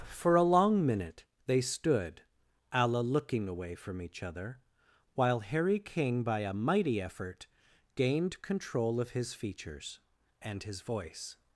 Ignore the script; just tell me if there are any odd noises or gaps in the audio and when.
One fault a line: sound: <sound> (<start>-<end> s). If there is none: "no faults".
no faults